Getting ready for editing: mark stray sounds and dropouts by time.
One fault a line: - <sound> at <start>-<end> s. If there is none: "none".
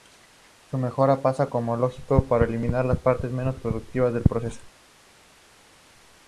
none